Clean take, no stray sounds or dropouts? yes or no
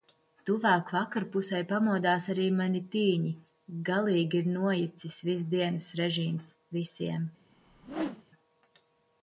no